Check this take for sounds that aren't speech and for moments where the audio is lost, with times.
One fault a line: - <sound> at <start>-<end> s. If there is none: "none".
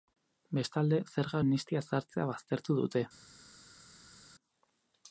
none